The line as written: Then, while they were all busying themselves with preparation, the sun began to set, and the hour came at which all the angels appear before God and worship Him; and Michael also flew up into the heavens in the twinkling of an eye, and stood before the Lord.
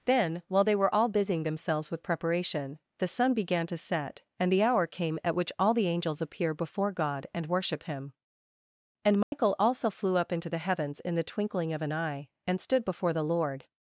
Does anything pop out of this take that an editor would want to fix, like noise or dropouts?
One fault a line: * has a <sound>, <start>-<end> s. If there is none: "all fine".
* has a dropout, 9.2-9.3 s